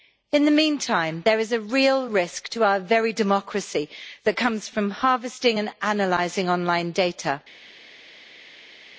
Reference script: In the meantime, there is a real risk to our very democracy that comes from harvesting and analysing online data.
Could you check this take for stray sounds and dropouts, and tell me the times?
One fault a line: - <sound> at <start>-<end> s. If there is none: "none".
none